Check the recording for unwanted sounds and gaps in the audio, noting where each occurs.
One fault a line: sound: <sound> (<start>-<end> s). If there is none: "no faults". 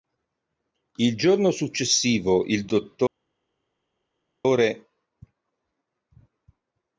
no faults